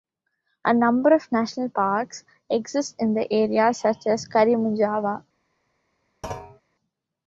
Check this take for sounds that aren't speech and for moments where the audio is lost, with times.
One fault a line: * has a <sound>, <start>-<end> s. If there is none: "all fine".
* has a thud, 6.2-6.6 s